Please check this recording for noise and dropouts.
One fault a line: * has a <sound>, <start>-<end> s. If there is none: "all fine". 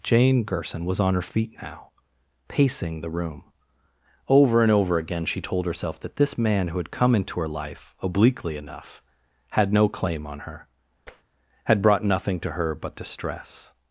* has a tap, 11.1-11.2 s